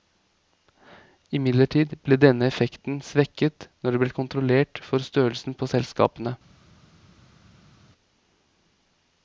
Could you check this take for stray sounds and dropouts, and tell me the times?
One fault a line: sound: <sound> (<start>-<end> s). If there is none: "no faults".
no faults